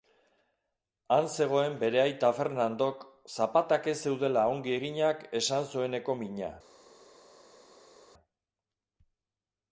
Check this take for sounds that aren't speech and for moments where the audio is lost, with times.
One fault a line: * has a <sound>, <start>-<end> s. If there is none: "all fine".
all fine